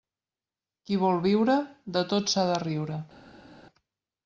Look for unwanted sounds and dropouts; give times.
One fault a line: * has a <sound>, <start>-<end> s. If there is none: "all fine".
all fine